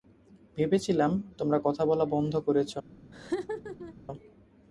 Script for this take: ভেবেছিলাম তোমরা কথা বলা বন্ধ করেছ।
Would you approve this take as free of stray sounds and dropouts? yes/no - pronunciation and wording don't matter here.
no